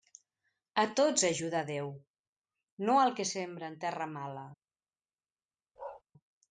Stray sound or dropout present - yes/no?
yes